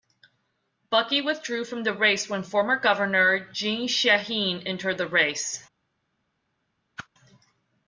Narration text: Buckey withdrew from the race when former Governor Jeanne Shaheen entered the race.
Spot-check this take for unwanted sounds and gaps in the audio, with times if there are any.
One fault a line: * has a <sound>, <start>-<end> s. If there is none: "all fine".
* has a whoosh, 7.0-7.1 s